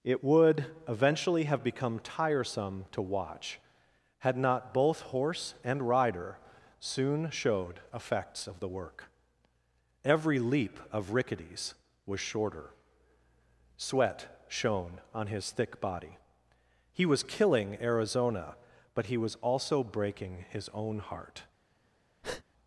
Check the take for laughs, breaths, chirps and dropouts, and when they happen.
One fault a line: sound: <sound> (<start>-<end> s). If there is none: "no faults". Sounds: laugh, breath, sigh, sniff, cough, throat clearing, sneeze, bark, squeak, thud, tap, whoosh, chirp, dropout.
sound: breath (22.2-22.4 s)